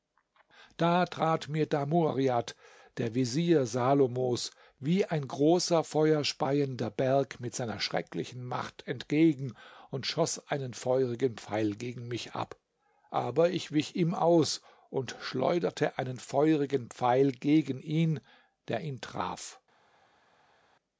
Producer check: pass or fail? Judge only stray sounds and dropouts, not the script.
pass